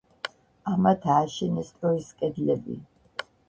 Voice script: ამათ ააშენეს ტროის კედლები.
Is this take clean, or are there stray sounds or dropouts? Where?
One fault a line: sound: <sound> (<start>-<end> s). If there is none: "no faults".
no faults